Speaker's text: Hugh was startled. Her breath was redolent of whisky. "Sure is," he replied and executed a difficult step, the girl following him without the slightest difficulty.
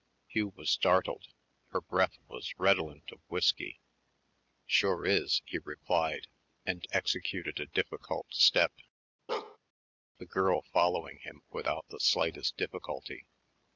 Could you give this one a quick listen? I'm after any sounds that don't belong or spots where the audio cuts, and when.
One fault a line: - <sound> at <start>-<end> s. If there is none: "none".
- bark at 9.3-9.6 s